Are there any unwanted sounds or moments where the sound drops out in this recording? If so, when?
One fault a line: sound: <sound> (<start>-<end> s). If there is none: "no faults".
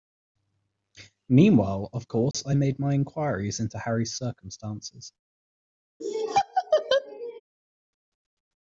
sound: dropout (2.3-2.3 s)
sound: laugh (6.0-7.4 s)